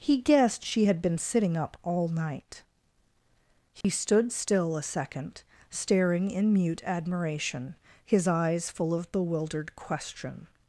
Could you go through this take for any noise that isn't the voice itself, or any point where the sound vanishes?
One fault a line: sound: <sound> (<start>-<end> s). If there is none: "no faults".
sound: dropout (3.8-3.8 s)